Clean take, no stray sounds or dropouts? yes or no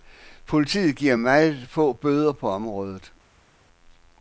yes